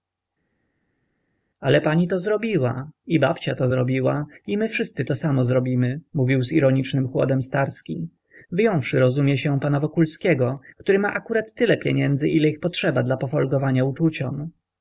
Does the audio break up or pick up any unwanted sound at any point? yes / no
no